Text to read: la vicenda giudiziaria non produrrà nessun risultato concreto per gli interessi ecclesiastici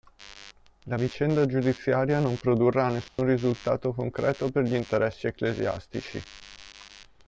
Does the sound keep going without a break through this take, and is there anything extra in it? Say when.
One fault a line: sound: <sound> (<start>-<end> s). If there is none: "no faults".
sound: dropout (3.1-3.2 s)